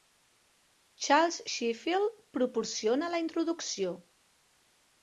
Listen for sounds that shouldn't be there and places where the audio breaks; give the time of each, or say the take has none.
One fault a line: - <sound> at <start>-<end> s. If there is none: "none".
none